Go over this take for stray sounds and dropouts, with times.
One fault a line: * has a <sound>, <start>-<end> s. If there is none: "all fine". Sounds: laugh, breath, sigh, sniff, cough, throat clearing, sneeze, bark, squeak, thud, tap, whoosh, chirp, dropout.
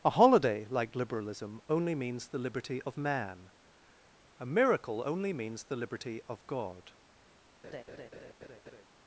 * has a laugh, 7.6-8.8 s